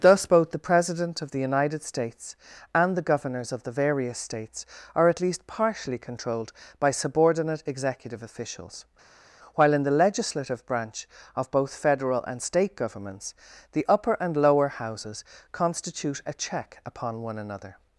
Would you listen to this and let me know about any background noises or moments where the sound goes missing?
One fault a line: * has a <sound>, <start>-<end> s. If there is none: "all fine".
all fine